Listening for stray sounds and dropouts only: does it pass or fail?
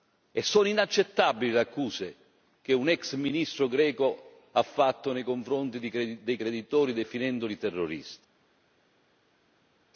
pass